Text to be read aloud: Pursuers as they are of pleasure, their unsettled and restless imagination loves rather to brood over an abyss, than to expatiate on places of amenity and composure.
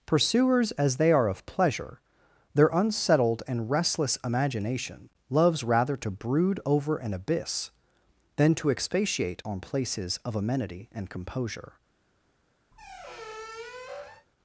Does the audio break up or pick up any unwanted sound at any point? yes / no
yes